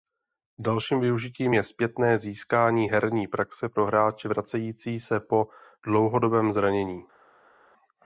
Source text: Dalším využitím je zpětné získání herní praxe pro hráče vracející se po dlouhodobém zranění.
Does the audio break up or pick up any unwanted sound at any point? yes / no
no